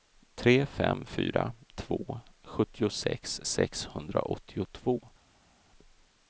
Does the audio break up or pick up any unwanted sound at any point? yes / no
no